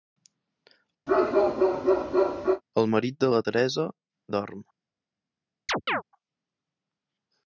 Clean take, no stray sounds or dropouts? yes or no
no